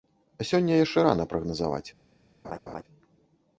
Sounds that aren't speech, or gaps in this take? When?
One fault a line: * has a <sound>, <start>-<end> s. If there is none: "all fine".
* has a laugh, 2.4-2.8 s